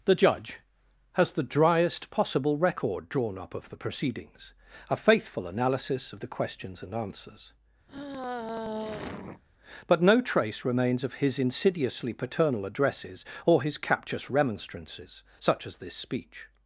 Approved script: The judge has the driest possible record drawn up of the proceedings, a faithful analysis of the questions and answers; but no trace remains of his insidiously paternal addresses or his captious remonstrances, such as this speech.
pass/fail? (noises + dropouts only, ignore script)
fail